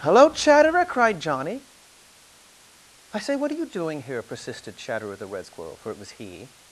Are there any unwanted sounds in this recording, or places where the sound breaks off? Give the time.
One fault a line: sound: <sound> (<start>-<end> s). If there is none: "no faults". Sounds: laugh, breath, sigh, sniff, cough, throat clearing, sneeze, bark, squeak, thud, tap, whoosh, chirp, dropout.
no faults